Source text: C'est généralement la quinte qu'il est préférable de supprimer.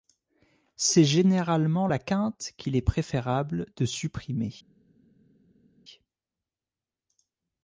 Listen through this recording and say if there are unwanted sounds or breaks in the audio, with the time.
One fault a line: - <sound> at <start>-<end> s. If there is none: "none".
none